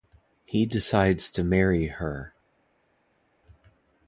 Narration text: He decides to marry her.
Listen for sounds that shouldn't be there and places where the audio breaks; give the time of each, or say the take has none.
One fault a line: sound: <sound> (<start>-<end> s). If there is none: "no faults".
no faults